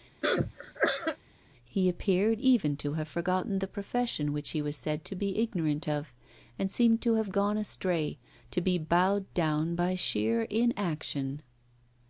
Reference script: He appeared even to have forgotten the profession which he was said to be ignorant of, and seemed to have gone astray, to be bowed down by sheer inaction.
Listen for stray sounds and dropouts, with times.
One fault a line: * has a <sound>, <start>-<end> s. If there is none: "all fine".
* has a cough, 0.2-1.2 s